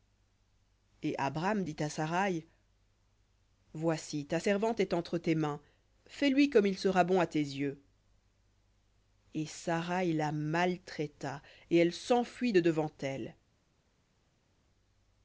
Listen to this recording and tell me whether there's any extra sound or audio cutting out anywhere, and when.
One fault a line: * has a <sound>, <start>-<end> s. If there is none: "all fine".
all fine